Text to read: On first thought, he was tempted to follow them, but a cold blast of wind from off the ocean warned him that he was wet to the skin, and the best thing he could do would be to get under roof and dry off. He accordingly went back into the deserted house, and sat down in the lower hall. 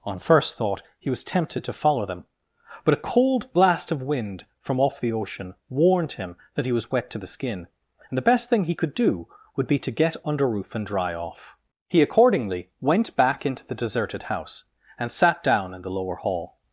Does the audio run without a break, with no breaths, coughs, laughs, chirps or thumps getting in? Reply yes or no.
yes